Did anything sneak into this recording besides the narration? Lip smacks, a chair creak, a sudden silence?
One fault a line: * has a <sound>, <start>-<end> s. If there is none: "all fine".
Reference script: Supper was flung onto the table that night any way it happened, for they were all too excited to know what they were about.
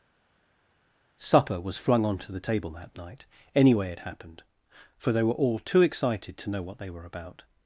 all fine